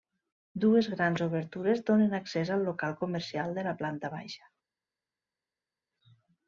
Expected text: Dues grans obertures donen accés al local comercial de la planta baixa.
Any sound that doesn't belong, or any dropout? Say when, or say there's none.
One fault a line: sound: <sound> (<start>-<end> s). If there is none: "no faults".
no faults